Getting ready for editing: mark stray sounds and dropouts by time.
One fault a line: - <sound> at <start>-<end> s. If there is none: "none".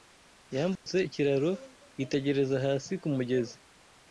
- dropout at 0.8-0.9 s